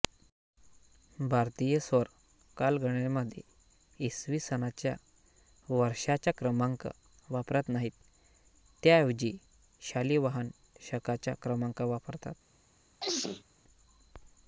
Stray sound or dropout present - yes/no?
yes